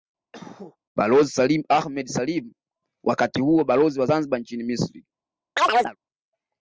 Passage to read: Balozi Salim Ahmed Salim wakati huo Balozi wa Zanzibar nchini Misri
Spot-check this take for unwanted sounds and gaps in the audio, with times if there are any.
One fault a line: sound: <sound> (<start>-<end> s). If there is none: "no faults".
sound: cough (0.3-0.8 s)
sound: chirp (5.6-6.0 s)